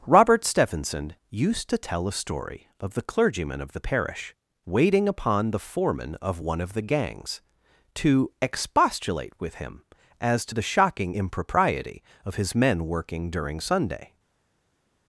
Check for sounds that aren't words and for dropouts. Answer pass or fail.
pass